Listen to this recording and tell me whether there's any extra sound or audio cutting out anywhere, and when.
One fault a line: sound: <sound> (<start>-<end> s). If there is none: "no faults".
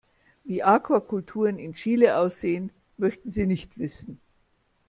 no faults